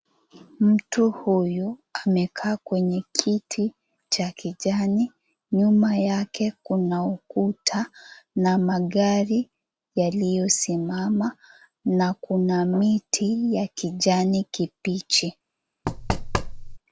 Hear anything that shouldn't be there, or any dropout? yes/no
yes